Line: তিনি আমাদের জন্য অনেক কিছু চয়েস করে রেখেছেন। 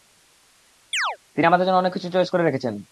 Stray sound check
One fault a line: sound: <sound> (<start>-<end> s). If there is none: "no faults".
sound: chirp (0.9-1.2 s)